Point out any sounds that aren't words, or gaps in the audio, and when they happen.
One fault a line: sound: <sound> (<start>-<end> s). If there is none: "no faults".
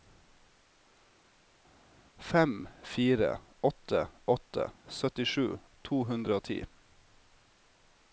no faults